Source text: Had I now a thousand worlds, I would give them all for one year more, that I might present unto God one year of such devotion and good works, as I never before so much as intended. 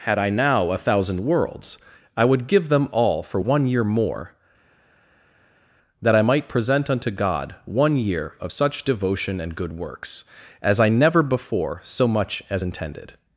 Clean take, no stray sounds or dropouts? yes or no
yes